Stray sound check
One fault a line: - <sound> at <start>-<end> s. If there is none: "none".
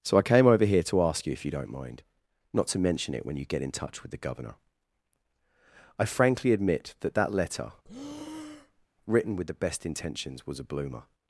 - breath at 7.8-8.9 s